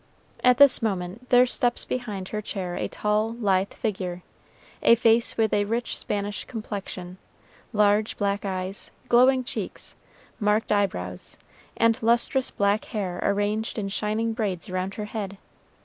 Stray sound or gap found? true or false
false